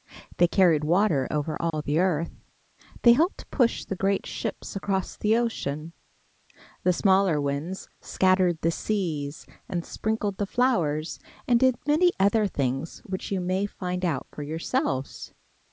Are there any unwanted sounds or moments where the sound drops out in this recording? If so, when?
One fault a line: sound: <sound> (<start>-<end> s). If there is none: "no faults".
sound: dropout (1.7-1.7 s)